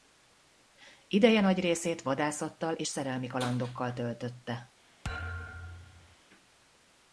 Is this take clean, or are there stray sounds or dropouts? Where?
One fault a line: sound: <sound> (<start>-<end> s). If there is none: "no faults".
sound: thud (5.0-6.2 s)